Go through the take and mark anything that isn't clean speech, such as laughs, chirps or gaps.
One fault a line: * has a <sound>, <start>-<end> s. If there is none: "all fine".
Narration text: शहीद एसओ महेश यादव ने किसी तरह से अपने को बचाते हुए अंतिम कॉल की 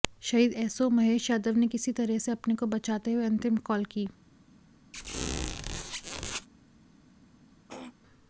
* has a squeak, 4.9-6.5 s
* has a throat clearing, 7.7-7.9 s